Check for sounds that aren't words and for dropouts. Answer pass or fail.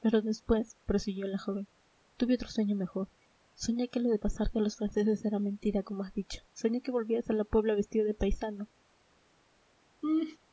fail